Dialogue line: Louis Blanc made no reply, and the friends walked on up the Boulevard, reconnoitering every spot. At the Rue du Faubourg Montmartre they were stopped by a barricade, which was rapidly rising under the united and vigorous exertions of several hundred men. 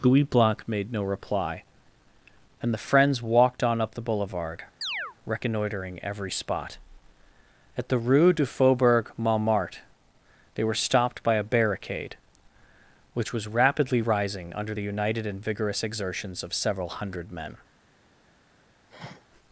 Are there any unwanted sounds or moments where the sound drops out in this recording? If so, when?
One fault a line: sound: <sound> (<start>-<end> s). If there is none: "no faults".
sound: chirp (4.8-5.2 s)
sound: sniff (18.9-19.3 s)